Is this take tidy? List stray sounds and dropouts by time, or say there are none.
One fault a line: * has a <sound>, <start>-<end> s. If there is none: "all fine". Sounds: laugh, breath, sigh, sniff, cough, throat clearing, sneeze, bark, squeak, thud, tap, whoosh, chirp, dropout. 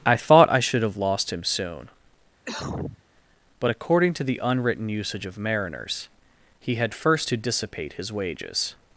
* has a cough, 2.4-3.0 s